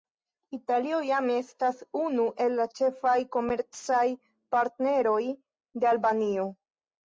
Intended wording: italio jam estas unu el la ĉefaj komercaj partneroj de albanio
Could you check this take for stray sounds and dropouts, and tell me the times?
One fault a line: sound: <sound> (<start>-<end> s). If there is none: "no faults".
no faults